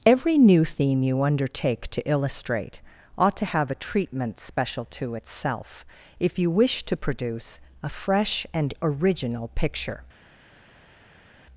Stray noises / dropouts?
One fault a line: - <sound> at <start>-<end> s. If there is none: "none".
none